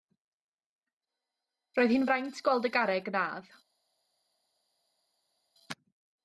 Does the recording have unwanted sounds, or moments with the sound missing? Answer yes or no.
no